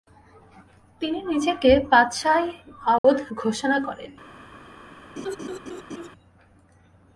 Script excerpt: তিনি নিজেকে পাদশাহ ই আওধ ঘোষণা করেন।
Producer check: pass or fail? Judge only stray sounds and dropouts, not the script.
fail